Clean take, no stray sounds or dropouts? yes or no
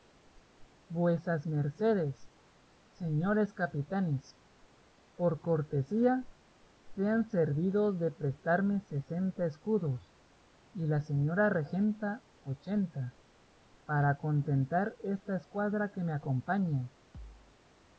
no